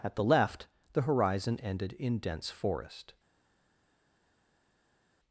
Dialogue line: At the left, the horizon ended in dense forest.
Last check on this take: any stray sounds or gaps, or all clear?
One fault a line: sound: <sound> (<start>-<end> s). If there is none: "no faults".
no faults